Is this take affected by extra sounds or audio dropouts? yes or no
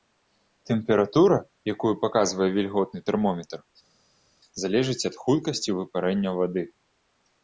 no